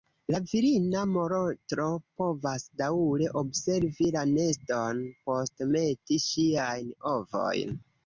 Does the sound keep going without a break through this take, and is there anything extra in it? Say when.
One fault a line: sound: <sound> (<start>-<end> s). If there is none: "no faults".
no faults